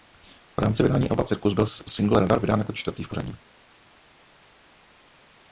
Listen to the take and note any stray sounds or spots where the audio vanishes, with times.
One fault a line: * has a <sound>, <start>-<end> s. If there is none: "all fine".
all fine